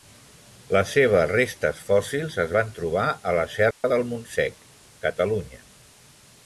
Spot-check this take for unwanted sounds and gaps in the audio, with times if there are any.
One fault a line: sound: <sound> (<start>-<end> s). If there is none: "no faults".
sound: dropout (3.7-3.8 s)